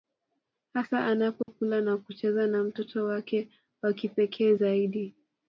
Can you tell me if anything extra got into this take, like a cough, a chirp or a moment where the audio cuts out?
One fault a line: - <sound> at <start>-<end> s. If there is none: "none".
- dropout at 1.4-1.5 s